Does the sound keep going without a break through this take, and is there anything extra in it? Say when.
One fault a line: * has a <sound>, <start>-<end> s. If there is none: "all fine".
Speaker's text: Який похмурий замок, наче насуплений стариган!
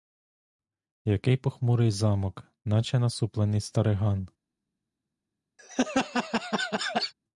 * has a laugh, 5.6-7.1 s